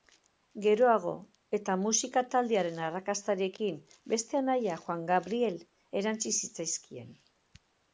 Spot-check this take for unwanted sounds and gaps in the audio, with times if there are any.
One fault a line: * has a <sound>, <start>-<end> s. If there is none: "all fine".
all fine